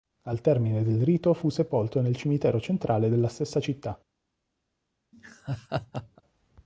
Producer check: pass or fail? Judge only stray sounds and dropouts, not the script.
fail